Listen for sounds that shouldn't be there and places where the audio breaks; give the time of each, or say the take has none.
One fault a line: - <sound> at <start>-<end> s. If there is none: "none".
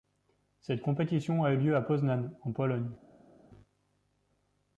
none